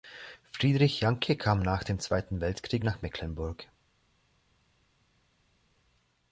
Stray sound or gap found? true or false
false